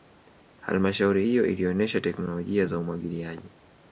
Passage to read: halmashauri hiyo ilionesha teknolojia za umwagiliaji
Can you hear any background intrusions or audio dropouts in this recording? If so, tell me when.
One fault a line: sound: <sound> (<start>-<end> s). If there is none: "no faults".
no faults